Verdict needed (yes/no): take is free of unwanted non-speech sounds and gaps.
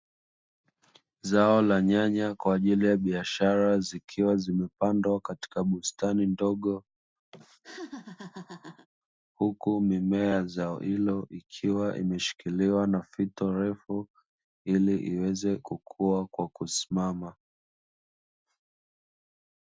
no